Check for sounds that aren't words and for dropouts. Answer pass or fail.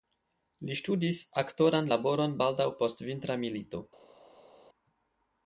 pass